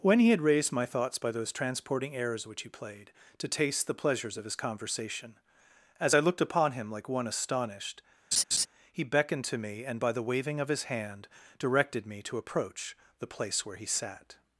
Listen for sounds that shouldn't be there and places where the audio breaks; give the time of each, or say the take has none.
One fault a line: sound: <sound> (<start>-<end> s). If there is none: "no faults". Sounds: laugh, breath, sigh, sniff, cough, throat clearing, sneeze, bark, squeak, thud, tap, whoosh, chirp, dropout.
sound: laugh (8.3-8.7 s)